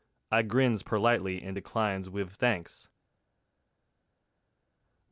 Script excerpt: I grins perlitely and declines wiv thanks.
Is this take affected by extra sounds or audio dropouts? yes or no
no